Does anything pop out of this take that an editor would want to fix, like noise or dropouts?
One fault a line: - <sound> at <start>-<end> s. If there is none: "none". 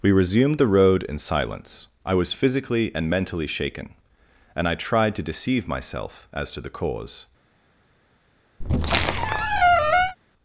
- squeak at 8.6-10.2 s